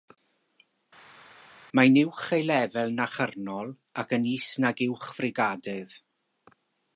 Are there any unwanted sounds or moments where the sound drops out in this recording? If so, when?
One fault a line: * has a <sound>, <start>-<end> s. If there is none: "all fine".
all fine